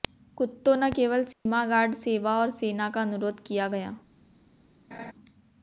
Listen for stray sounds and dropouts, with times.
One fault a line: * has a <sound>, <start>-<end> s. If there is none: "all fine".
* has a dropout, 1.3-1.5 s
* has a laugh, 4.9-5.1 s